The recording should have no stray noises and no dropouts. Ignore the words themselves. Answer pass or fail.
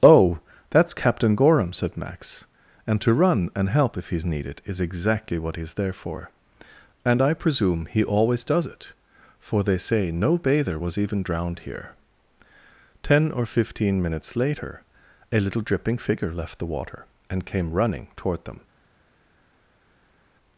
pass